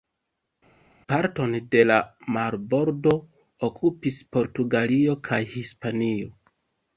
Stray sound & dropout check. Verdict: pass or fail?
pass